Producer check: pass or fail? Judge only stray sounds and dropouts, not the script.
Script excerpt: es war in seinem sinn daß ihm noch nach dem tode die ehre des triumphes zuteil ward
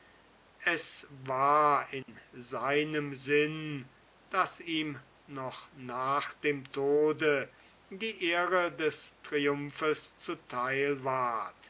fail